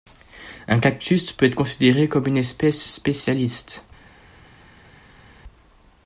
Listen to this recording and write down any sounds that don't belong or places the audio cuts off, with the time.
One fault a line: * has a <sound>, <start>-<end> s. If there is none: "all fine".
all fine